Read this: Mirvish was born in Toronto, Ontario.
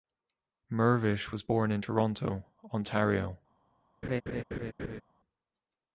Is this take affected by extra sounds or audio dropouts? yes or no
yes